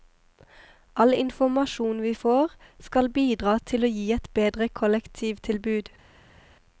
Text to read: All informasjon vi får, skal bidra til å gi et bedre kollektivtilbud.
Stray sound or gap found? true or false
false